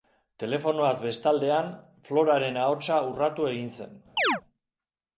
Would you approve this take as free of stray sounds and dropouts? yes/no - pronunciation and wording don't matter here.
no